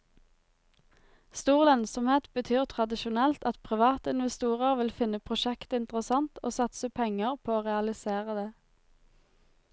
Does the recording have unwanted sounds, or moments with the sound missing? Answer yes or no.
no